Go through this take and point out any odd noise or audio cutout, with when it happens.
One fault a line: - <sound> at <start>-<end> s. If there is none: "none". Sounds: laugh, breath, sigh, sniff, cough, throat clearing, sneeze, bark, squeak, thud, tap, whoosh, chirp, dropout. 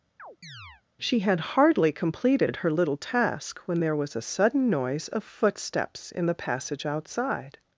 - chirp at 0.2-0.8 s